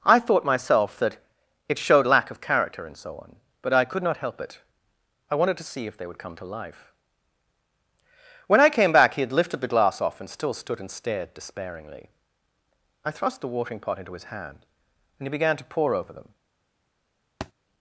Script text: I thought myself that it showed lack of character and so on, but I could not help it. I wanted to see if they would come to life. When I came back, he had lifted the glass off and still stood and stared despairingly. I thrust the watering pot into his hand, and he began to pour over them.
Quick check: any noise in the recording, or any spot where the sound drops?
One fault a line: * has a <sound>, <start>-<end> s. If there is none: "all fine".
* has a thud, 17.4-17.5 s